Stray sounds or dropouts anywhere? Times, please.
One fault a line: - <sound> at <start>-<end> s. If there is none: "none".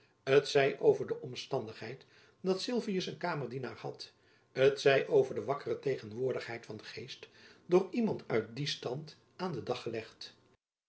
none